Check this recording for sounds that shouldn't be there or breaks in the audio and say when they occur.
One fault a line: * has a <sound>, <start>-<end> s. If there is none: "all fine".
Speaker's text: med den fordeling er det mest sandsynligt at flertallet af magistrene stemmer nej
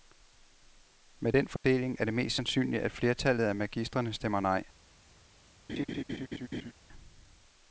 * has a dropout, 1.6-1.6 s
* has a laugh, 5.7-6.7 s